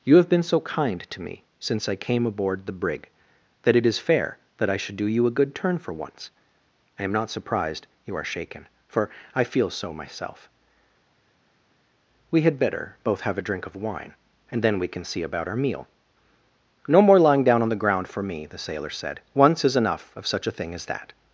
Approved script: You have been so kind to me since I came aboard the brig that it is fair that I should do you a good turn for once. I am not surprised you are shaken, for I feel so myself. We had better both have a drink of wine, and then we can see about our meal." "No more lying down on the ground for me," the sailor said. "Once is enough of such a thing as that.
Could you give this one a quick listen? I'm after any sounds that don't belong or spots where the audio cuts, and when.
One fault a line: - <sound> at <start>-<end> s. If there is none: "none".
none